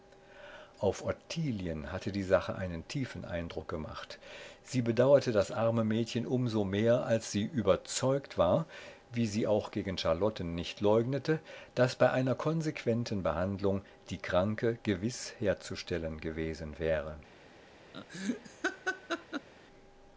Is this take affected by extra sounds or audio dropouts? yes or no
yes